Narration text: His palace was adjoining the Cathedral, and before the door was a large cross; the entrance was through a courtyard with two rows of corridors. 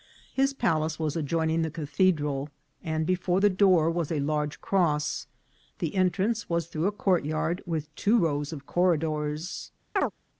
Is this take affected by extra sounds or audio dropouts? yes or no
yes